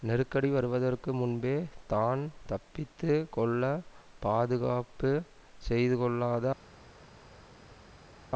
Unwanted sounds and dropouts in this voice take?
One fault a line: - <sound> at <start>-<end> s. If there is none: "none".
none